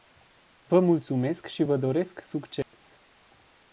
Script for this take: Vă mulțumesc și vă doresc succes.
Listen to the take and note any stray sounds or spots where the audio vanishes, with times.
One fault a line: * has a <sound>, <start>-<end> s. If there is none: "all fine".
* has a dropout, 2.6-2.7 s